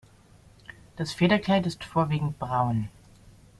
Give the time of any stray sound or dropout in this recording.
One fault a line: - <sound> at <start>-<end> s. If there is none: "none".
none